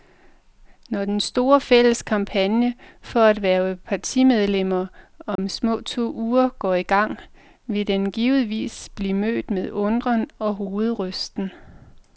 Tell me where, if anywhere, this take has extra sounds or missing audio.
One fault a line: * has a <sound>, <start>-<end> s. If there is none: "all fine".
* has a dropout, 5.4-5.4 s